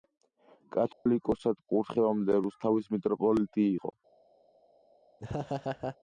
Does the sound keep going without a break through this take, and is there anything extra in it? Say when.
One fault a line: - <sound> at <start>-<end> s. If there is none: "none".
- dropout at 0.9-1.1 s
- laugh at 5.2-6.0 s